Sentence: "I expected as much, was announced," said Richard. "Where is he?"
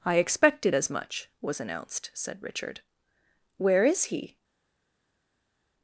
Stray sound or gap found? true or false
false